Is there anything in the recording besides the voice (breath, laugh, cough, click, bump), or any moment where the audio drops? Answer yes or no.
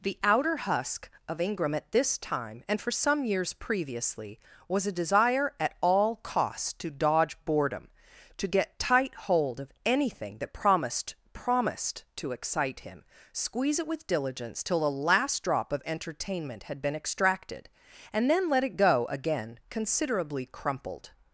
no